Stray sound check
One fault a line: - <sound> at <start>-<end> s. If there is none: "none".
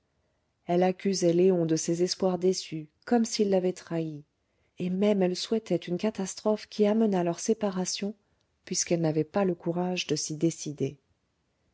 none